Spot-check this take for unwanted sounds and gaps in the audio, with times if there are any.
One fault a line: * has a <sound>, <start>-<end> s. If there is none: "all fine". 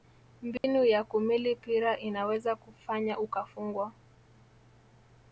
* has a dropout, 0.6-0.6 s